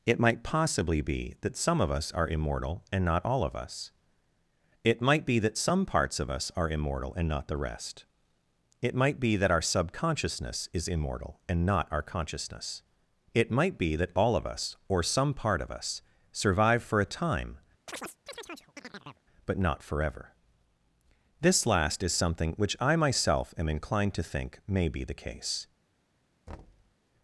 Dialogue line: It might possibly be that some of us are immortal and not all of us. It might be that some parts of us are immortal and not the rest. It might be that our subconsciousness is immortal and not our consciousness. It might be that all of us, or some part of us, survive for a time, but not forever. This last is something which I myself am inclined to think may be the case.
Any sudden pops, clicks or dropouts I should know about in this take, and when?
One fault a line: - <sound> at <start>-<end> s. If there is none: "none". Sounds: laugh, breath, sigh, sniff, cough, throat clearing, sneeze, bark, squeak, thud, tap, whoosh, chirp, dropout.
- chirp at 17.9-19.3 s
- thud at 26.5-27.0 s